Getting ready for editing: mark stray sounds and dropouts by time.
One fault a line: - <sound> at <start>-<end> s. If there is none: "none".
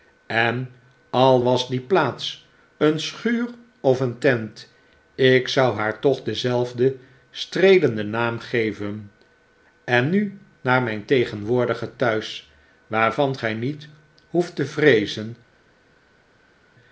none